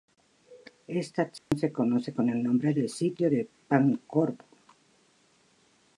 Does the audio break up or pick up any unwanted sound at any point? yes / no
yes